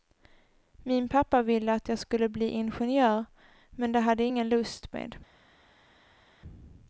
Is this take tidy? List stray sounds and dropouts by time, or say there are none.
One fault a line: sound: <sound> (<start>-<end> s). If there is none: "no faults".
no faults